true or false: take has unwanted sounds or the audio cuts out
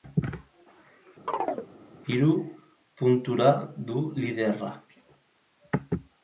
true